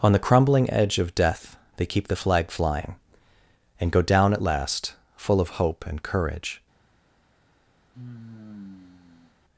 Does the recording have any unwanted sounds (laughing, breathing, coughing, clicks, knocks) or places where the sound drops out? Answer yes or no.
yes